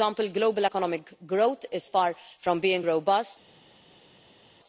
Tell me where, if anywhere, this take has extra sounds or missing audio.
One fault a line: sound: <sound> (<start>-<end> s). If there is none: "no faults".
no faults